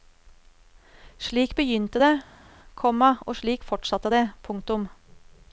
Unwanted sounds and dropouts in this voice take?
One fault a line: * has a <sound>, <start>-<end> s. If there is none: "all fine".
all fine